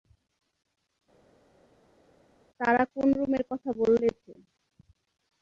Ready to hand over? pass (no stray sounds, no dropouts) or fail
pass